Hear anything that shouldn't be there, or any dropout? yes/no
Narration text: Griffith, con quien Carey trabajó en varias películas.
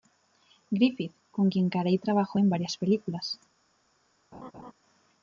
yes